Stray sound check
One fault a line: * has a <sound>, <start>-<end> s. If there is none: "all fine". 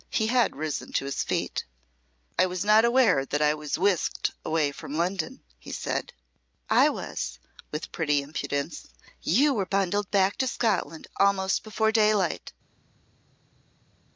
all fine